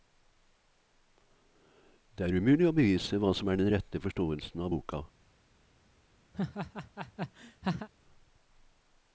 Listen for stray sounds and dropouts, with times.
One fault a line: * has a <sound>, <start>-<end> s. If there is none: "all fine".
* has a laugh, 6.3-7.9 s